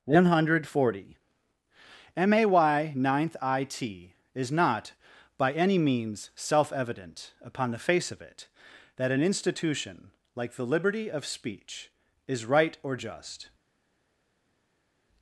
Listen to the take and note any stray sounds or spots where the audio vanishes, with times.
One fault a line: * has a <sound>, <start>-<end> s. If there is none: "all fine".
all fine